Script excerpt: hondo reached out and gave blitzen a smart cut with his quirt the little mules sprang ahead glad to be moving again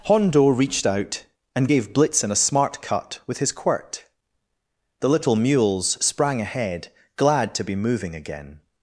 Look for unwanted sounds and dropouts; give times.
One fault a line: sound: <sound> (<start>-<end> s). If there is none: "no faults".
no faults